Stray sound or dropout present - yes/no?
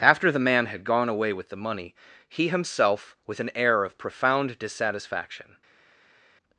no